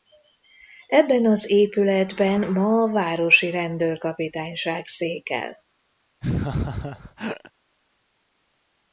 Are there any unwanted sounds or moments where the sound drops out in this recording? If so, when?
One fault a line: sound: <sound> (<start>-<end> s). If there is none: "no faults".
sound: laugh (6.2-7.5 s)